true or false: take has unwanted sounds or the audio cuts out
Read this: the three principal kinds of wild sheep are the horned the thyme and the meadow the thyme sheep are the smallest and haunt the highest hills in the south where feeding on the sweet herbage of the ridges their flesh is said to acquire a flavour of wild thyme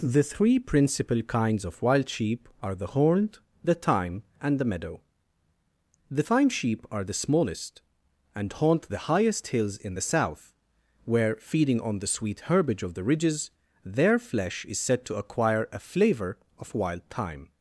false